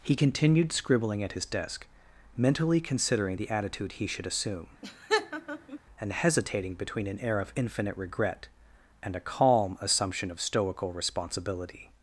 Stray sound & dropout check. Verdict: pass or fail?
fail